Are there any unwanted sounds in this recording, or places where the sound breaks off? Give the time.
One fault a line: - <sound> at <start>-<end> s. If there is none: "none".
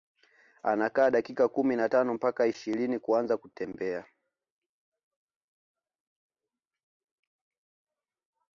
none